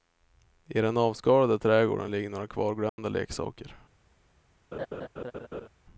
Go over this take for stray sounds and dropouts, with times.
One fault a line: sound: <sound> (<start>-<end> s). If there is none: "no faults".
sound: dropout (2.9-3.0 s)
sound: laugh (4.7-5.7 s)